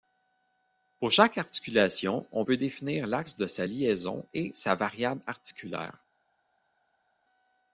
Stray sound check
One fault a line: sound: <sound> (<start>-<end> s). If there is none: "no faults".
no faults